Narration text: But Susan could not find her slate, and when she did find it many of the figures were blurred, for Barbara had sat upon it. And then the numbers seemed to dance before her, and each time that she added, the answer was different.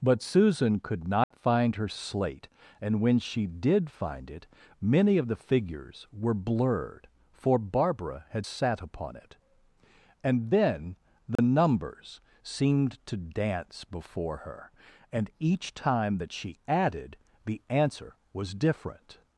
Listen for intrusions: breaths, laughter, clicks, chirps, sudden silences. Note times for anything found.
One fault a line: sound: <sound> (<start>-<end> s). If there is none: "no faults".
sound: dropout (1.2-1.3 s)
sound: dropout (11.4-11.4 s)